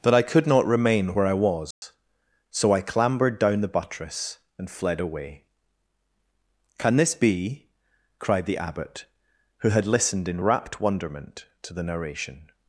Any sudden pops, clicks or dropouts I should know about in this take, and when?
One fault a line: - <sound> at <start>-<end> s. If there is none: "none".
- dropout at 1.7-1.8 s